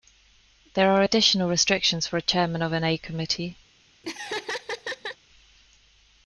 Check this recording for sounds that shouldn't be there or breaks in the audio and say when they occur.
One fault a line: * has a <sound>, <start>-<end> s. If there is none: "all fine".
* has a laugh, 4.0-5.2 s